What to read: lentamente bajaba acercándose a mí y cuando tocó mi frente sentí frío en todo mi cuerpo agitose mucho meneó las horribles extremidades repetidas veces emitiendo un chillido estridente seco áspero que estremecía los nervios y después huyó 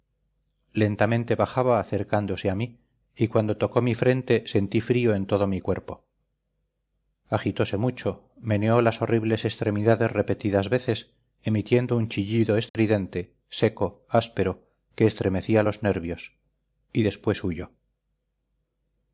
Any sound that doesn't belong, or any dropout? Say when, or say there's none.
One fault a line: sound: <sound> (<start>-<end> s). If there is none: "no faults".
sound: dropout (12.7-12.7 s)